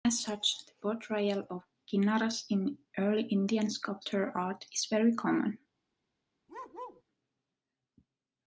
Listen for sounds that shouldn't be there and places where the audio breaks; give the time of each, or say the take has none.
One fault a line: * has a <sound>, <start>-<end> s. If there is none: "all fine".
* has a bark, 6.5-7.0 s